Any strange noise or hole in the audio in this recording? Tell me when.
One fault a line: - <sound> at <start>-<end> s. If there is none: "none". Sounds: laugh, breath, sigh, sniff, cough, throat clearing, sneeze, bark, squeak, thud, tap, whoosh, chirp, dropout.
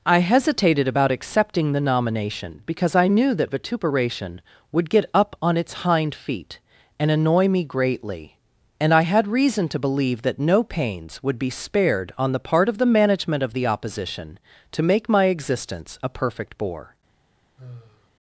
- sigh at 17.6-18.1 s